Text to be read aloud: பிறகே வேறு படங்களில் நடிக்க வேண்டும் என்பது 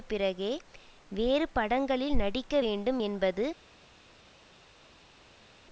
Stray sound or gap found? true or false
false